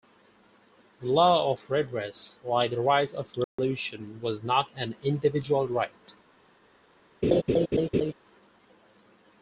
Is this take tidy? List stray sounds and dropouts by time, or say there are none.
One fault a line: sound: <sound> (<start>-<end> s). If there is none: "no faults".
sound: dropout (3.4-3.6 s)
sound: laugh (7.2-8.1 s)